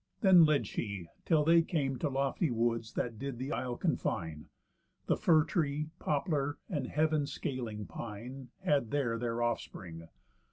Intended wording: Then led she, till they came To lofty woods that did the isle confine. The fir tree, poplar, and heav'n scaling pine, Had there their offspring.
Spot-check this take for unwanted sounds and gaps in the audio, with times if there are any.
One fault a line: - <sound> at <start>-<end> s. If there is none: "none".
none